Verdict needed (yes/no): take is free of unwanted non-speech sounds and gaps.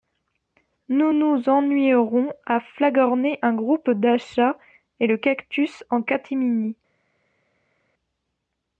yes